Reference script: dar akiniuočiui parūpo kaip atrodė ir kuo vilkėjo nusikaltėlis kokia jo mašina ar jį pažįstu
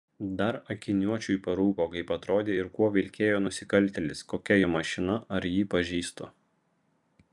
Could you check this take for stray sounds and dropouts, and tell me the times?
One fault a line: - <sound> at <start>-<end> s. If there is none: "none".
none